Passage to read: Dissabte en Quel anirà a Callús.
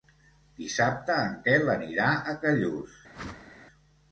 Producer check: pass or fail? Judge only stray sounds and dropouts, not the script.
fail